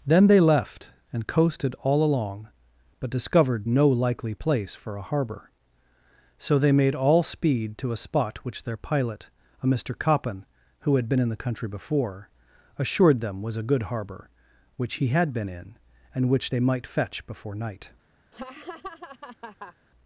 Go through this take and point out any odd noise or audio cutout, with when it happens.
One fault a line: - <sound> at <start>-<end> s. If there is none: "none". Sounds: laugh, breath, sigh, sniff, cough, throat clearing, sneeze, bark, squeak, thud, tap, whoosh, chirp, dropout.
- laugh at 18.3-19.7 s